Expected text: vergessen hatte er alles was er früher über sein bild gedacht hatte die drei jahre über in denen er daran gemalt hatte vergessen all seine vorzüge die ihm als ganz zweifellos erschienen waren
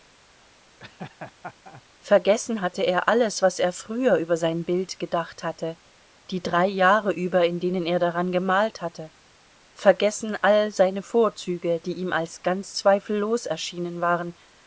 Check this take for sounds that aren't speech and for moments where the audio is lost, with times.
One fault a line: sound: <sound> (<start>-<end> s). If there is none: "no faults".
sound: laugh (0.8-1.8 s)